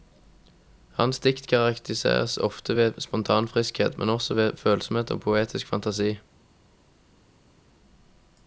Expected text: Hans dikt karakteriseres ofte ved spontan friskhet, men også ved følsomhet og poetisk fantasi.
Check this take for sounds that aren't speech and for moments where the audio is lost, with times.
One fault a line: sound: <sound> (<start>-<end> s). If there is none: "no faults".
no faults